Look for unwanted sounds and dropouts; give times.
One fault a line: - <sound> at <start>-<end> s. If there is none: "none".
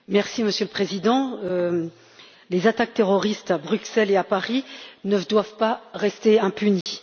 - dropout at 6.8-6.9 s